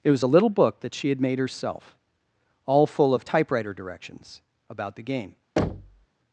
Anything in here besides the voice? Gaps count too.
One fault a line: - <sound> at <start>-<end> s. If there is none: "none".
- thud at 5.6-6.1 s